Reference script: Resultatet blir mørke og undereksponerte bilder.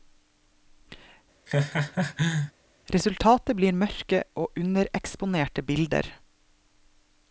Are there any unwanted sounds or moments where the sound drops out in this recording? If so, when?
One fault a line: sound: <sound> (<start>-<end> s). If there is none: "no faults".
sound: laugh (1.5-2.5 s)